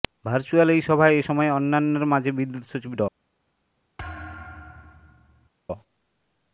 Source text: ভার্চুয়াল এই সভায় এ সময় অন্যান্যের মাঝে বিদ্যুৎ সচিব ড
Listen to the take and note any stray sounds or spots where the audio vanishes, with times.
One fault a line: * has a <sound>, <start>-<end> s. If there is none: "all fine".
* has a thud, 4.0-5.5 s